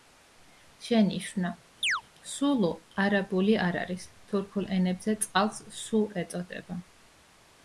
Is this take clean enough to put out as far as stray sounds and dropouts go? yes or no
no